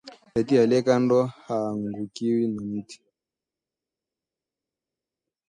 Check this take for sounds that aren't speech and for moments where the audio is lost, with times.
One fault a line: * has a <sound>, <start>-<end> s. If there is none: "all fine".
all fine